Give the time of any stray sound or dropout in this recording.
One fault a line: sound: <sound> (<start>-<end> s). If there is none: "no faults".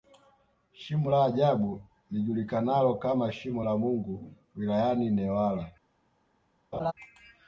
sound: laugh (6.7-6.9 s)